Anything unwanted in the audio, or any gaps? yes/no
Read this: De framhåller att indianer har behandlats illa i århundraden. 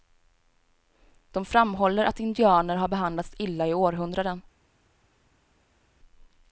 no